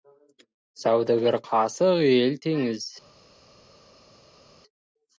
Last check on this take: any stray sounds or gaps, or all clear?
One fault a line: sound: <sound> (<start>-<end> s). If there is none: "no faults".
no faults